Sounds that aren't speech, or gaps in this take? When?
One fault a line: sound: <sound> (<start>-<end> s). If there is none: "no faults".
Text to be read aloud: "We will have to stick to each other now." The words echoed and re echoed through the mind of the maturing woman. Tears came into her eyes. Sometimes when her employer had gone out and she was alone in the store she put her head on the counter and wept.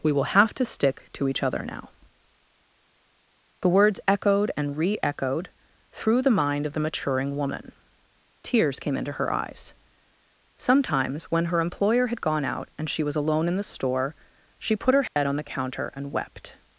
sound: dropout (15.1-15.2 s)